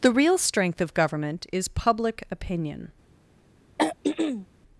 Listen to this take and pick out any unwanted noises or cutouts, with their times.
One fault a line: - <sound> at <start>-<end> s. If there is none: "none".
- throat clearing at 3.8-4.5 s